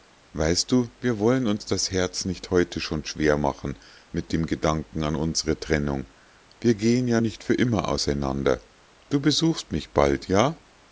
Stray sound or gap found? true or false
false